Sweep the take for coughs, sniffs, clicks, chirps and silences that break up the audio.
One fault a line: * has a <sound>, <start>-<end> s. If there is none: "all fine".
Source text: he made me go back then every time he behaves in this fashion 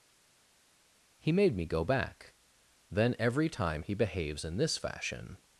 all fine